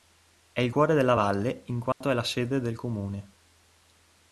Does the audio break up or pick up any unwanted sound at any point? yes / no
yes